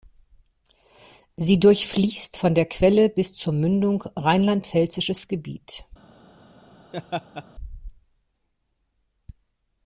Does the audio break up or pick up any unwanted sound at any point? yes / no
yes